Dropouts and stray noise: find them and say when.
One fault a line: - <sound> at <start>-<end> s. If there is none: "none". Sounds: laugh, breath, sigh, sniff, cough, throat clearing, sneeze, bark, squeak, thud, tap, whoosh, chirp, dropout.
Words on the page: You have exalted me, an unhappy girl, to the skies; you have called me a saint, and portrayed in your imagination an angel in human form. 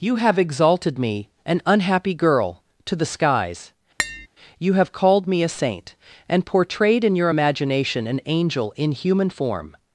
- tap at 4.0-4.3 s